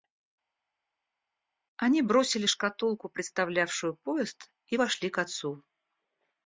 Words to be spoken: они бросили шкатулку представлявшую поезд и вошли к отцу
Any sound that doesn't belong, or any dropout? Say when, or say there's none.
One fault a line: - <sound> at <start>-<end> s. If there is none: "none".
none